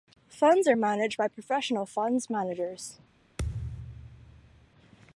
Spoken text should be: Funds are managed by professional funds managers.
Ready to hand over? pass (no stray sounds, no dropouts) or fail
fail